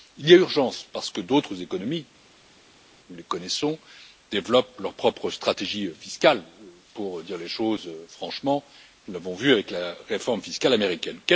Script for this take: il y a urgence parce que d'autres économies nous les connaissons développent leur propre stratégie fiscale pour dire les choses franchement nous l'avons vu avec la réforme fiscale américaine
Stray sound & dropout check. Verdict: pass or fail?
pass